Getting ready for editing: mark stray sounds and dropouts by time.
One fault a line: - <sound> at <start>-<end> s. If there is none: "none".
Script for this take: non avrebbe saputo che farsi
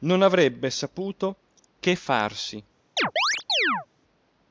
- chirp at 3.0-3.9 s